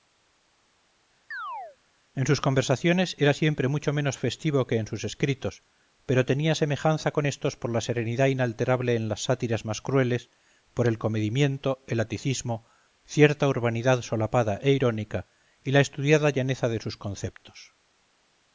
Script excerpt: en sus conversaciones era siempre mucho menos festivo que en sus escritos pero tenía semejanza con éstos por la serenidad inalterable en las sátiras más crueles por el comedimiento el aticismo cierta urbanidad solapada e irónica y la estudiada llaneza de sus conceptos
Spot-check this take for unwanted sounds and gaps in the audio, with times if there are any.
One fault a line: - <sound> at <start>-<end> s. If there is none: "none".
- chirp at 1.3-1.8 s